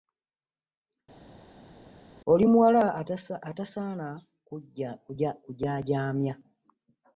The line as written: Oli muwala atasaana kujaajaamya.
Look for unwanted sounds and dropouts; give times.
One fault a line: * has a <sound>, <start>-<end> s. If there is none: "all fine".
all fine